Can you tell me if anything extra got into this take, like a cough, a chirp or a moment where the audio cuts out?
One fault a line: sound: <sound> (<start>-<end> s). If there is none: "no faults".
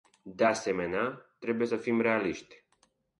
no faults